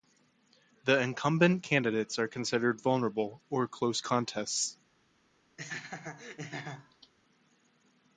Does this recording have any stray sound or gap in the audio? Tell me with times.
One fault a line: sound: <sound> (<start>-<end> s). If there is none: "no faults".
sound: laugh (5.6-7.1 s)